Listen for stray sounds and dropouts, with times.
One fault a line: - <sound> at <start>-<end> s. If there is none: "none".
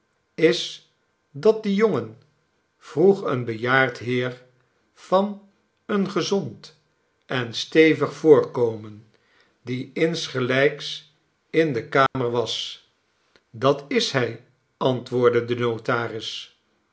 - dropout at 12.1-12.2 s